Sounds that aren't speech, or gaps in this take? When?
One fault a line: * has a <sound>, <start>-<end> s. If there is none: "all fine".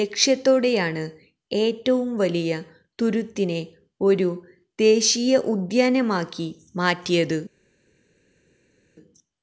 all fine